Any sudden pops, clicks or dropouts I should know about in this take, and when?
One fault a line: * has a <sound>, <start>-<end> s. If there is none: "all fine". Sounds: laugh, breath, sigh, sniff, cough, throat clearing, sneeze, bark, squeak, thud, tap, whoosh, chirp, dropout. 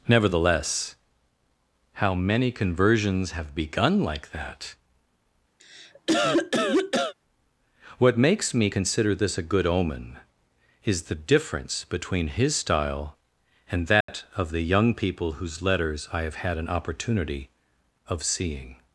* has a cough, 5.6-7.1 s
* has a dropout, 14.0-14.1 s